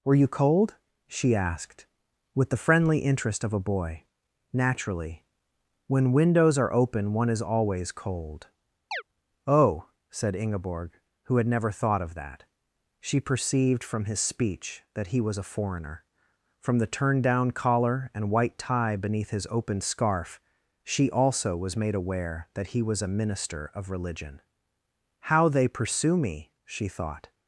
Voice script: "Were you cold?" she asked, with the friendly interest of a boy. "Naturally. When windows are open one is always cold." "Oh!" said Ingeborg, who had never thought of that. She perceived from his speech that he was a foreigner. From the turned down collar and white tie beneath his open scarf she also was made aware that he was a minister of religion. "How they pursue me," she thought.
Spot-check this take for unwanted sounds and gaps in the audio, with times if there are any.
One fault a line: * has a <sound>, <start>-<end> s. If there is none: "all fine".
* has a chirp, 8.9-9.0 s